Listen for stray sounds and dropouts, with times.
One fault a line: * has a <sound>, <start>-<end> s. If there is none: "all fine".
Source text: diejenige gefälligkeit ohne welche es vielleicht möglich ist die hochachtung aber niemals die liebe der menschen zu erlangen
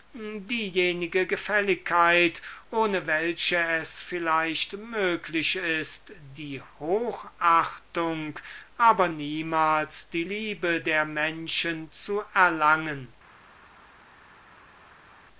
all fine